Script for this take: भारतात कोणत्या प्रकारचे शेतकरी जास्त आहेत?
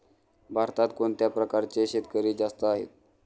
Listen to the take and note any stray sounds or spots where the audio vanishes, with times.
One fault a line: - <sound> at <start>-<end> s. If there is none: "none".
none